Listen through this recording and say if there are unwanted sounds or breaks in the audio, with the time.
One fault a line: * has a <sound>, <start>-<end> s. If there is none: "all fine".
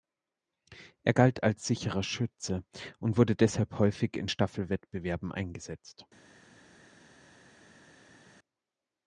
all fine